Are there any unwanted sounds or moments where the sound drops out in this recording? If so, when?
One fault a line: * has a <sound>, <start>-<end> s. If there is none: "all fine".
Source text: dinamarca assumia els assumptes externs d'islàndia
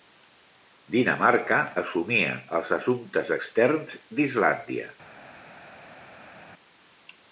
all fine